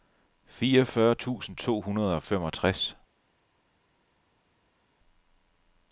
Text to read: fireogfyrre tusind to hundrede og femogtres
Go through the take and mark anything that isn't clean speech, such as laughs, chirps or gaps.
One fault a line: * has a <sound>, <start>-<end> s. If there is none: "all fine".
all fine